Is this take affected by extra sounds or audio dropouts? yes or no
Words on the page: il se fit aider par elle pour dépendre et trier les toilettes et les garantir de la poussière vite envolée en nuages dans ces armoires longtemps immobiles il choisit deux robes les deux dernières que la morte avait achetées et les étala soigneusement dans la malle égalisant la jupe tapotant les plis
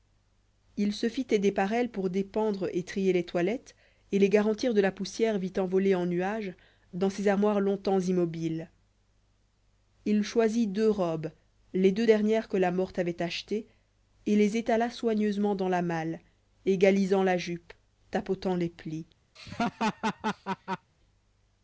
yes